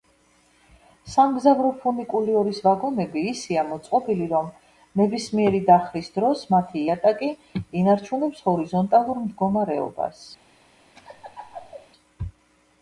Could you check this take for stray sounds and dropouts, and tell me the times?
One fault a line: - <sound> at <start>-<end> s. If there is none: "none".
- laugh at 10.9-11.9 s